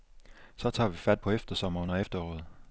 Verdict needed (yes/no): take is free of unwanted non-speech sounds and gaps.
yes